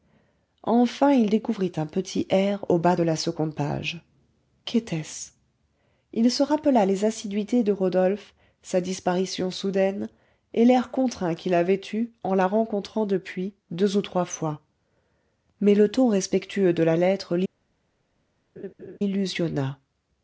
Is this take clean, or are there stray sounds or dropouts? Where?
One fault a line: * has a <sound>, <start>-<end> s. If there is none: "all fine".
* has a laugh, 18.6-19.0 s